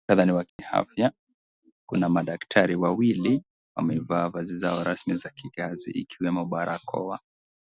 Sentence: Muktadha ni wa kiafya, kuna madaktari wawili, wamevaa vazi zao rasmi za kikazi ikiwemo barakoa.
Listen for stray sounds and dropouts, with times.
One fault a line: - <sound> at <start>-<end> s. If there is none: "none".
- dropout at 0.5-0.6 s